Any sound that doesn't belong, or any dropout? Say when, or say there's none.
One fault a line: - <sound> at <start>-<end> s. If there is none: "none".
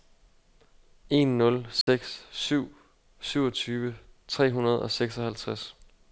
- dropout at 1.8-1.9 s